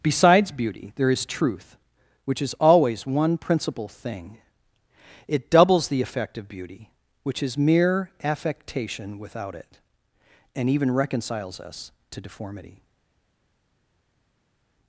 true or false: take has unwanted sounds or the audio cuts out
false